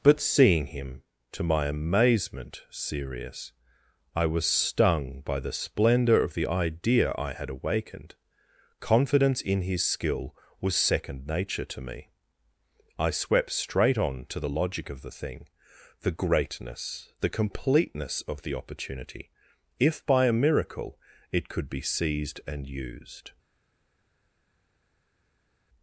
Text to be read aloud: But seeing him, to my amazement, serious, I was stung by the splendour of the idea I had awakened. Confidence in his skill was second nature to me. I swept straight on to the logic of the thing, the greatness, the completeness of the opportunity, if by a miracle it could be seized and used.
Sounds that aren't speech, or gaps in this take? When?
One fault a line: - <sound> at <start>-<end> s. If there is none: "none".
none